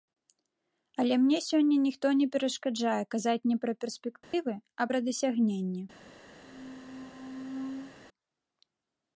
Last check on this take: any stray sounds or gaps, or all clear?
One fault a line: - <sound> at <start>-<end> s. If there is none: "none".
- dropout at 4.2-4.3 s
- squeak at 6.4-7.9 s